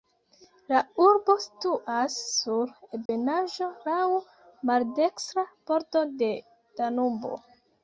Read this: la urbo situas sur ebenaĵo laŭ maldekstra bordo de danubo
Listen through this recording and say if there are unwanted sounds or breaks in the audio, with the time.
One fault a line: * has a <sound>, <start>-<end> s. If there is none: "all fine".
* has a dropout, 3.1-3.1 s